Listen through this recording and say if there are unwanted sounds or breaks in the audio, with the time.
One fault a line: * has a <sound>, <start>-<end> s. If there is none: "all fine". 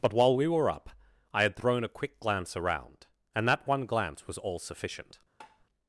* has a tap, 5.4-5.7 s